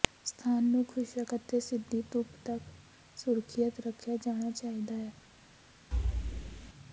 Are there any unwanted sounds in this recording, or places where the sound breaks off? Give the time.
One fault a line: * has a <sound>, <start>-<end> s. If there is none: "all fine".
* has a thud, 5.9-6.7 s